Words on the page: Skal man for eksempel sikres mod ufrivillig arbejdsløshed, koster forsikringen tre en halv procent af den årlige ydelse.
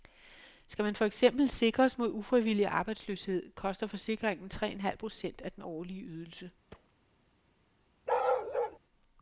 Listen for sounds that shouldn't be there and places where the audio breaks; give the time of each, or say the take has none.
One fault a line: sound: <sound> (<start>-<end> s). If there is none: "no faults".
sound: thud (6.7-6.9 s)
sound: bark (8.1-8.8 s)